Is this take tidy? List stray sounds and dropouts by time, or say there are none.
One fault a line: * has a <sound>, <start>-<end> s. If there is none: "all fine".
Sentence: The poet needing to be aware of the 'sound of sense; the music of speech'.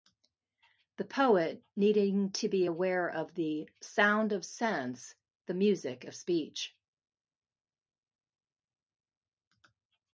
all fine